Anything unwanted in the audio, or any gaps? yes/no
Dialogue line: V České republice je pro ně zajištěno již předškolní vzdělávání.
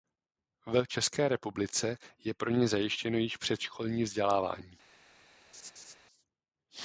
yes